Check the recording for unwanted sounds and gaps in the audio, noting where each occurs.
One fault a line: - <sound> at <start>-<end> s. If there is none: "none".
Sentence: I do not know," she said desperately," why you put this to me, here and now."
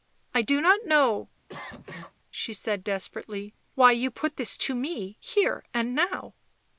- cough at 1.5-2.1 s